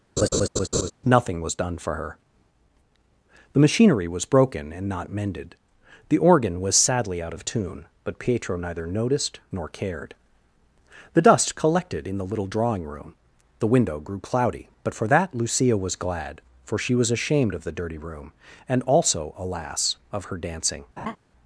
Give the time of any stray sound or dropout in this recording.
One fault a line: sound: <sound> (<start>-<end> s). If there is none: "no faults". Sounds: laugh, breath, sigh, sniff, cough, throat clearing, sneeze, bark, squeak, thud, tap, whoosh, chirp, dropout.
sound: laugh (0.2-0.9 s)
sound: laugh (21.0-21.2 s)